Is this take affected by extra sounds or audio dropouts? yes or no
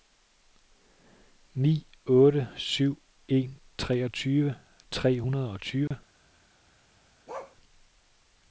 yes